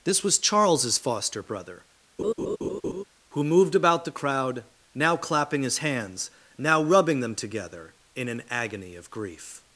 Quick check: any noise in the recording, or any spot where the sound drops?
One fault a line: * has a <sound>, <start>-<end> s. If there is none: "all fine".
* has a laugh, 2.2-3.0 s